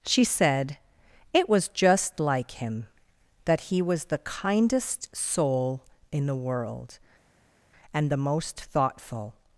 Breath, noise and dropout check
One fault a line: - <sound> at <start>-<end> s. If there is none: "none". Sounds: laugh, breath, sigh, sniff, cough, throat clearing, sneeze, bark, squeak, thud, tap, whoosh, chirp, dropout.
none